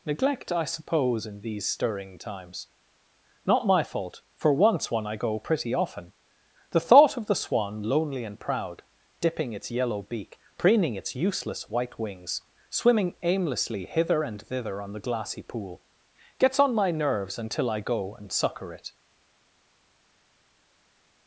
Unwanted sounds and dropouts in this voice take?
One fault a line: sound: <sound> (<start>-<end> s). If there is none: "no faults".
no faults